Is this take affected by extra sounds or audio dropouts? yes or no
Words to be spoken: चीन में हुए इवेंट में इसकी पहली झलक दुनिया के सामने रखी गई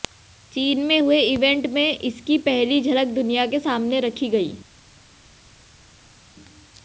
no